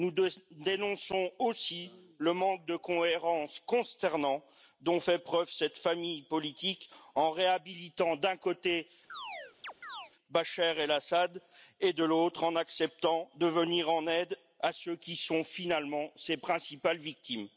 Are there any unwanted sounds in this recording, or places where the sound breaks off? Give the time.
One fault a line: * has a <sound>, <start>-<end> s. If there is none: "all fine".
* has a chirp, 9.1-10.1 s